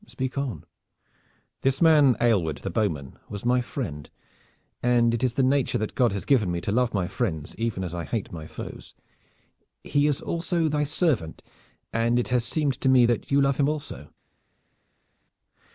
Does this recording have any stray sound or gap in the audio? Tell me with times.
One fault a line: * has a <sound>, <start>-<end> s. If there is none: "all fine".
all fine